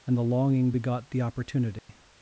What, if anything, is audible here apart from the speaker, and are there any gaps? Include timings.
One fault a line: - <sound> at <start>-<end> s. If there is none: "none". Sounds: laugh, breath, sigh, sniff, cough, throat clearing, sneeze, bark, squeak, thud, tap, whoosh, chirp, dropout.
- dropout at 1.8-1.9 s